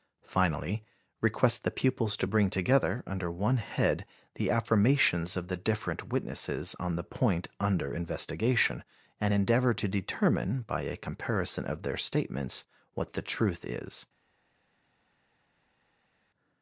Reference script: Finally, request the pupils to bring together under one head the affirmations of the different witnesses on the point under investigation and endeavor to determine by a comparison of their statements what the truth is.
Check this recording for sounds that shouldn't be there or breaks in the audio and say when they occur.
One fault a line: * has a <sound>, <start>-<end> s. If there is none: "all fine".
all fine